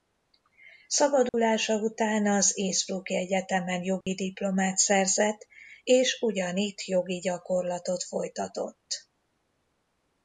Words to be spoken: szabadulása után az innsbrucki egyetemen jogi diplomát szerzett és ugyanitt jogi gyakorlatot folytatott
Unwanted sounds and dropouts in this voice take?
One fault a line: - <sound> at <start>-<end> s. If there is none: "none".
- dropout at 1.3-1.3 s
- dropout at 4.0-4.1 s